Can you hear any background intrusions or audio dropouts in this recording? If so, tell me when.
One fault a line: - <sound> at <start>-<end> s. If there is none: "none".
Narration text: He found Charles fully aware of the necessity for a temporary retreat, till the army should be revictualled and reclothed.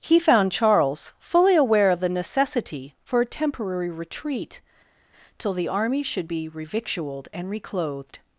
none